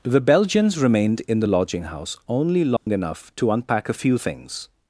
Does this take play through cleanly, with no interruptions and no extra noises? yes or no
no